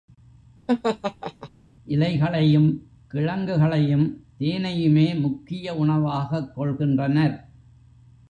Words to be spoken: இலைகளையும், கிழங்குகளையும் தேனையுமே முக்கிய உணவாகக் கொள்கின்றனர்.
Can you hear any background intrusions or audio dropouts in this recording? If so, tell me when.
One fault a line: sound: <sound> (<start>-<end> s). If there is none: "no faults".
sound: laugh (0.7-1.5 s)